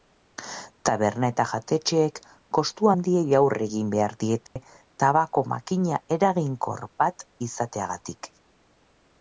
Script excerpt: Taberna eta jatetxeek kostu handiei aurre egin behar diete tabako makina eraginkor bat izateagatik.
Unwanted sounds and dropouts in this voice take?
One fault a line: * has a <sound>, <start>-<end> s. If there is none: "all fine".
* has a dropout, 4.5-4.6 s